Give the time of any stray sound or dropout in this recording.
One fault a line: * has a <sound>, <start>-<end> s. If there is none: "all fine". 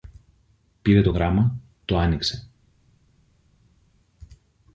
all fine